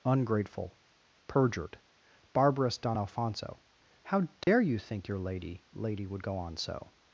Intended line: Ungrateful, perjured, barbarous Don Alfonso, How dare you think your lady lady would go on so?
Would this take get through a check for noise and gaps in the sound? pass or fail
fail